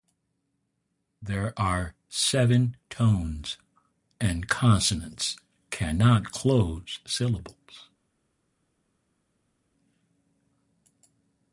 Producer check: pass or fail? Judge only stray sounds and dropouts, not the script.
pass